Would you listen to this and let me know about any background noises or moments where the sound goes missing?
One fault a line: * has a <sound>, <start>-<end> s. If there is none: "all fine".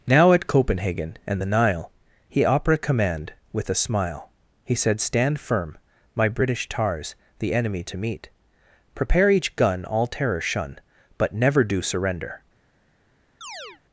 * has a chirp, 13.4-13.8 s